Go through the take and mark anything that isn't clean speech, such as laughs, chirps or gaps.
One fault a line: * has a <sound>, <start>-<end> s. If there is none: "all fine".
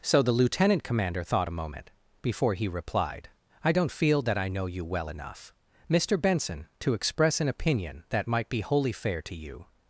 all fine